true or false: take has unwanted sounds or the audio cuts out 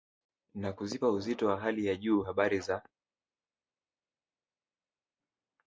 false